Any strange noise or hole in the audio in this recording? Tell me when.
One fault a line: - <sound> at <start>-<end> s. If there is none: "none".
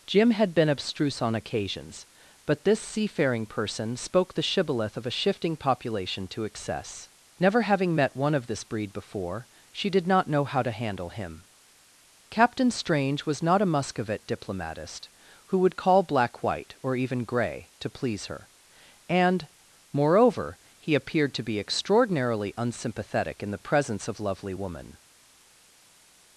none